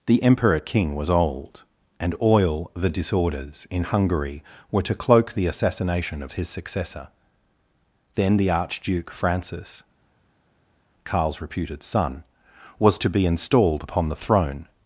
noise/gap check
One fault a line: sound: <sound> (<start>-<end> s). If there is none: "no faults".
no faults